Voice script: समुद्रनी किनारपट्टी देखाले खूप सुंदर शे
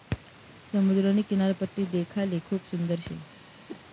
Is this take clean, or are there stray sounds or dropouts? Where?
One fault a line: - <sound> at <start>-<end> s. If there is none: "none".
- whoosh at 3.7-3.8 s